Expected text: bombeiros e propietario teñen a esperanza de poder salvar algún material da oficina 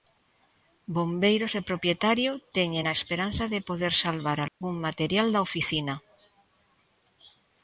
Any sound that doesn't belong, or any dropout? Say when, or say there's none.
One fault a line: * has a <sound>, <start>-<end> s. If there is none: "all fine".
* has a dropout, 4.5-4.6 s